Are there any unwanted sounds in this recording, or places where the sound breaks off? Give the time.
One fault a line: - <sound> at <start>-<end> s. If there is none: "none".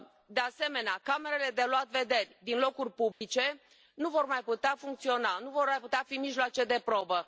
- dropout at 3.1-3.2 s